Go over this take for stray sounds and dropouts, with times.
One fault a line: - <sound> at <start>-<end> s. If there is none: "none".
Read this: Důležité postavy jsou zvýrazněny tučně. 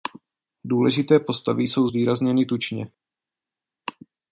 none